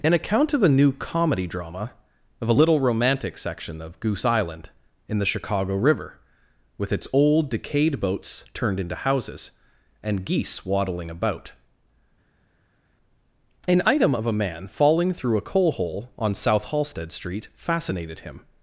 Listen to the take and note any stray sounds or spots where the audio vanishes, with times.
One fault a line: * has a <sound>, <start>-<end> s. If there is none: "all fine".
all fine